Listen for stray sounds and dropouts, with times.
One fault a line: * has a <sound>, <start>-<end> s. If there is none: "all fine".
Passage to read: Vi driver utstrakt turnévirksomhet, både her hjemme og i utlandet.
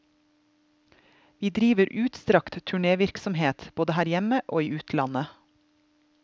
all fine